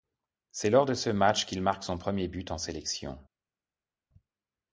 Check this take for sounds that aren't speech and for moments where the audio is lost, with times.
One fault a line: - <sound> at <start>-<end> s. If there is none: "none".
none